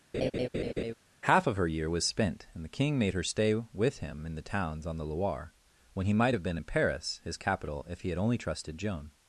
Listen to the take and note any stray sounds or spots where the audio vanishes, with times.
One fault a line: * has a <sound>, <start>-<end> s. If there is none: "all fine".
* has a laugh, 0.1-0.9 s